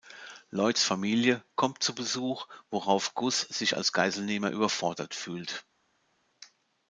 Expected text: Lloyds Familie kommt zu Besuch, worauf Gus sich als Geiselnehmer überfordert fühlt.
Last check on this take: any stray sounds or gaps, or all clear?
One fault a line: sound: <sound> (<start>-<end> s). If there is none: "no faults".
no faults